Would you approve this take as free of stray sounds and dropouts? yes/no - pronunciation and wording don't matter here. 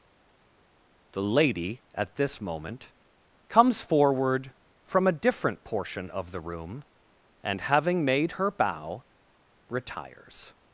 yes